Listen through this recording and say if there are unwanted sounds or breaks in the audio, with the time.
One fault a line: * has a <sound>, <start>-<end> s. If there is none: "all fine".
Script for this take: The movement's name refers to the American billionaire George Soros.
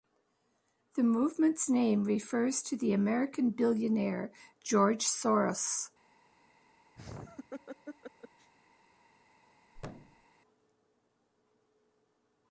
* has a laugh, 7.0-8.5 s
* has a thud, 9.7-10.3 s